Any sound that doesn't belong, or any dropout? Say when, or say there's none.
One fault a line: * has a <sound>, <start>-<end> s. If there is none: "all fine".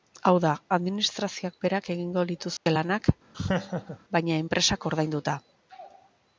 * has a dropout, 2.6-2.7 s
* has a laugh, 3.3-4.0 s